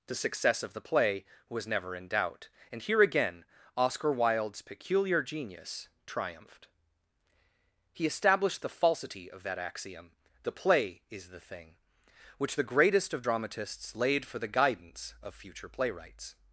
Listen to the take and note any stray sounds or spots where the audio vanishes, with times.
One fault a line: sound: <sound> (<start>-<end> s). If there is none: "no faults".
no faults